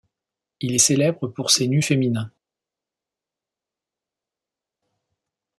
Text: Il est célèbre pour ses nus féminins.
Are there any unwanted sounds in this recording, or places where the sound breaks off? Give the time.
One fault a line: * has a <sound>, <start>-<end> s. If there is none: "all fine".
all fine